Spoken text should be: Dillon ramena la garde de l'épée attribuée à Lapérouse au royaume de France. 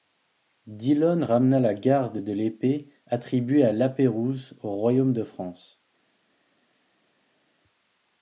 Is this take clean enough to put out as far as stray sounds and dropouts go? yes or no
yes